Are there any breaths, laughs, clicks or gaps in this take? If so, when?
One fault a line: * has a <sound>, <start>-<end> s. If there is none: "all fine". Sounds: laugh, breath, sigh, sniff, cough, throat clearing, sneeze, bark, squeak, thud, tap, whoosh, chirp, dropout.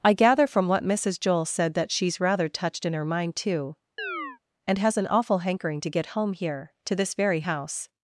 * has a chirp, 4.0-4.4 s